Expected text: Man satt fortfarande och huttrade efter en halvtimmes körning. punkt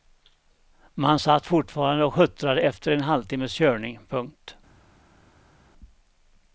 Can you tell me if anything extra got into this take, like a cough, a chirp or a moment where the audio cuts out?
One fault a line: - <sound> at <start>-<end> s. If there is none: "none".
none